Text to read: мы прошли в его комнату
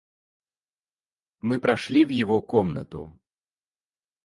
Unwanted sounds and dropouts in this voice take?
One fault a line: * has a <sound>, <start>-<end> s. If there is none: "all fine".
all fine